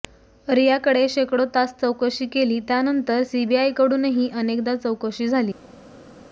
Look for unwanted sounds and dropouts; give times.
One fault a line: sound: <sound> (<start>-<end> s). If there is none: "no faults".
no faults